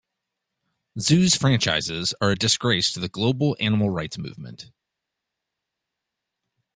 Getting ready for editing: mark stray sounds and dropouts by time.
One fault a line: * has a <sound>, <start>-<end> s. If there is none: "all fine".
all fine